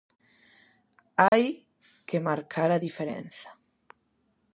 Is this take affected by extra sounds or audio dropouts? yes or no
yes